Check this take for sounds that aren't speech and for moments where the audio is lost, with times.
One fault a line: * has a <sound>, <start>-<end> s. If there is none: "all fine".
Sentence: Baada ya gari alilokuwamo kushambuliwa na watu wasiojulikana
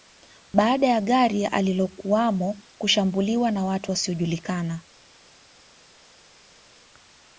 all fine